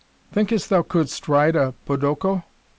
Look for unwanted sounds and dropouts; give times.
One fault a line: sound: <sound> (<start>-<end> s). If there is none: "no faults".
no faults